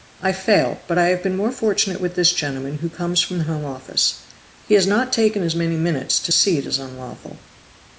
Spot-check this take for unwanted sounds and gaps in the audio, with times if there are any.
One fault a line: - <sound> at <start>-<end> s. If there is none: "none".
none